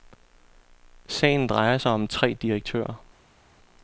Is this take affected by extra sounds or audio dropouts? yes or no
no